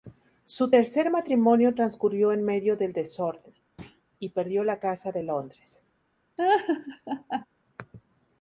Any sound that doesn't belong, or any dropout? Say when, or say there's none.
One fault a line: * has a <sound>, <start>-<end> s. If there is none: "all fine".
* has a thud, 3.8-4.0 s
* has a laugh, 6.4-7.5 s